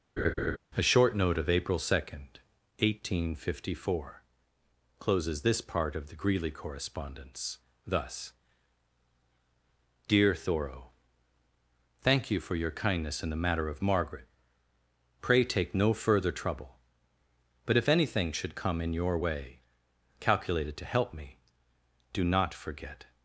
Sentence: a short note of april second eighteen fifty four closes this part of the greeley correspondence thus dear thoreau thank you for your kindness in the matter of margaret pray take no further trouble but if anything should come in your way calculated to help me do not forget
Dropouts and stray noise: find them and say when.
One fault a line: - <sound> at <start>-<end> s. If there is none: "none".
- laugh at 0.2-0.6 s